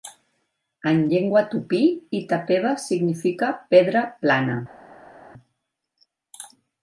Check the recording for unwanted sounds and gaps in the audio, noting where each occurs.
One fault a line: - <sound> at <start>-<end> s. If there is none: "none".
none